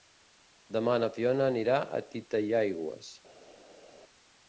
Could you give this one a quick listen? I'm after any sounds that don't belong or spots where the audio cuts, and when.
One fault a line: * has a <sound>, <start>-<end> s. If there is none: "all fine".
all fine